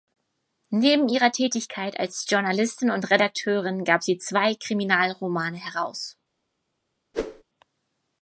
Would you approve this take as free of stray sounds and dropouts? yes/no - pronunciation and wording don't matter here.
no